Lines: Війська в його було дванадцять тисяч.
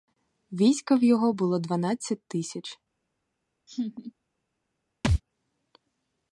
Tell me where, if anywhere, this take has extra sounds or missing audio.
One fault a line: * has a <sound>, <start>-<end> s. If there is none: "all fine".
* has a laugh, 3.7-4.1 s
* has a thud, 5.0-5.2 s